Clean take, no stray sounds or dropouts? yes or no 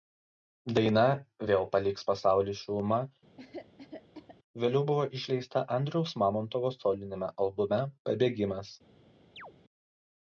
no